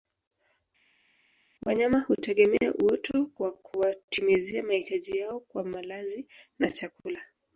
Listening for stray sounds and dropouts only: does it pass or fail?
pass